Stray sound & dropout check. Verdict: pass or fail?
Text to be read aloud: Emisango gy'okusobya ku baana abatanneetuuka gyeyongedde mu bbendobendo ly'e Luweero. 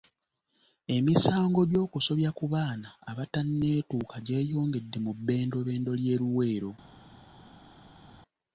pass